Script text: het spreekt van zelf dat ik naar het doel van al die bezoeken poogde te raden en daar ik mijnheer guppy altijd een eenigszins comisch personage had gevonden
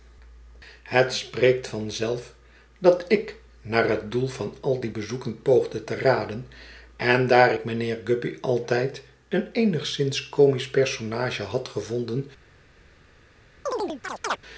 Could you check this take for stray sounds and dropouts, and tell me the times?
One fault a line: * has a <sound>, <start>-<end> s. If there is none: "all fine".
* has a chirp, 13.7-14.4 s